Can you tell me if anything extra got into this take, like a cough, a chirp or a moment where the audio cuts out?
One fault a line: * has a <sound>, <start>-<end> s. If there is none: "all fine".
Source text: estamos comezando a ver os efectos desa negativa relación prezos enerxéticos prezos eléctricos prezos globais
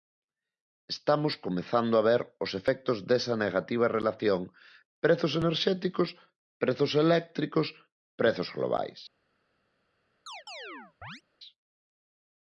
* has a chirp, 10.3-11.2 s